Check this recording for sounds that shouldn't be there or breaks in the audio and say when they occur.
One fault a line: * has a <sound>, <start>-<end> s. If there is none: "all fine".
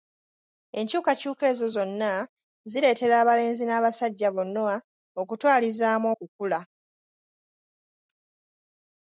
all fine